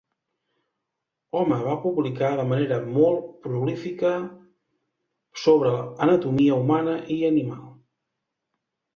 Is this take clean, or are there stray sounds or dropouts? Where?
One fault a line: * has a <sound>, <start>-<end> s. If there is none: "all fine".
all fine